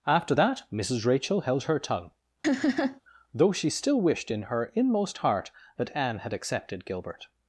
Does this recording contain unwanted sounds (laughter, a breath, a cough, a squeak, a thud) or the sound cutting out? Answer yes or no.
yes